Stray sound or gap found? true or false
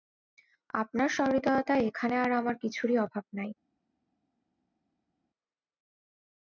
false